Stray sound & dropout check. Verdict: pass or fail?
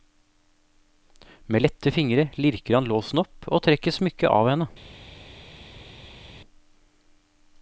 pass